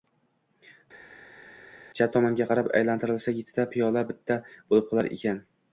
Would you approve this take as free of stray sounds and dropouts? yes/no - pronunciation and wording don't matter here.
yes